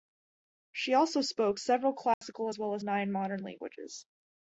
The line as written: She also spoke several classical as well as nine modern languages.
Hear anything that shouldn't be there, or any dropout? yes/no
yes